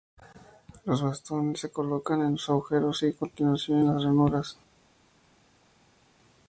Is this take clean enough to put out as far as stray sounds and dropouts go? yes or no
yes